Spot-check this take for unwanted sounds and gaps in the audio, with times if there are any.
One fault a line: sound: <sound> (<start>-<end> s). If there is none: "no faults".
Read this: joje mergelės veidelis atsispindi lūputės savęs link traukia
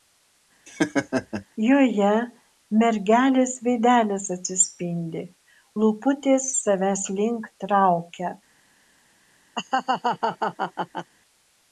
sound: laugh (0.7-1.4 s)
sound: laugh (9.5-11.1 s)